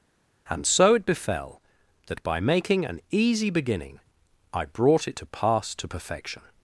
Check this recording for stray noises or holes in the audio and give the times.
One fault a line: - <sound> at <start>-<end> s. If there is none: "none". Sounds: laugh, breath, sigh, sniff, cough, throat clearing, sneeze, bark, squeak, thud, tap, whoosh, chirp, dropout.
none